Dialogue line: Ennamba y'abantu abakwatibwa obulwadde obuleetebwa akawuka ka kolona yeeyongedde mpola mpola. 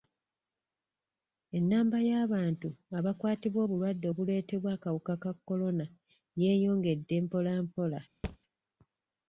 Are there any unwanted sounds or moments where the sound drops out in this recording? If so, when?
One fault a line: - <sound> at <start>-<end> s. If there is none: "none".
- thud at 8.2-8.4 s